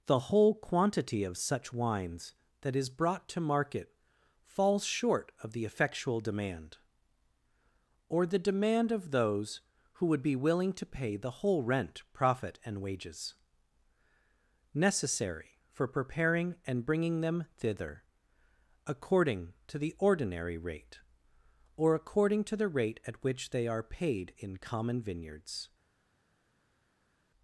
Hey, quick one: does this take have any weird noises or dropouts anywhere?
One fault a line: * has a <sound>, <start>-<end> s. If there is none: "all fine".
all fine